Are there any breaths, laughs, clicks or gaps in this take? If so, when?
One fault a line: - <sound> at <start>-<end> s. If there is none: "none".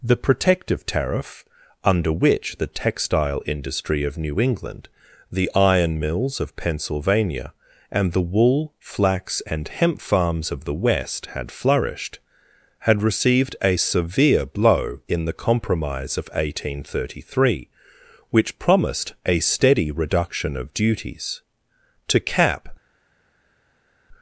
none